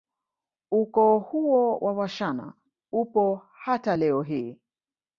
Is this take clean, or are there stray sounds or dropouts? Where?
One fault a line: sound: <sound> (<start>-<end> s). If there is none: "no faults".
no faults